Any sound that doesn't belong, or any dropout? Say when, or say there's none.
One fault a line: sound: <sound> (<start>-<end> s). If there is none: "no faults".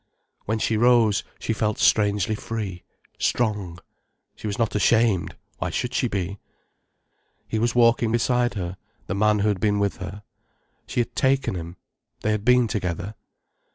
no faults